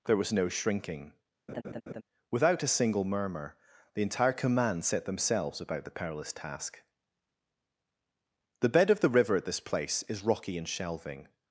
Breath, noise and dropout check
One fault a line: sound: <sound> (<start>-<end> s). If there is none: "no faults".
sound: laugh (1.5-2.0 s)